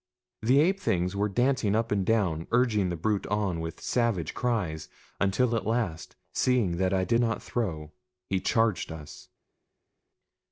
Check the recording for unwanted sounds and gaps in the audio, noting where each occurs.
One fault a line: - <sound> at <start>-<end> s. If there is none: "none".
none